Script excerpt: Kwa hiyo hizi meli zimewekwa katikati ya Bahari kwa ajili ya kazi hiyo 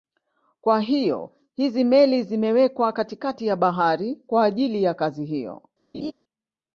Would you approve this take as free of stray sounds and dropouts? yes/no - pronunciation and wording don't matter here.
no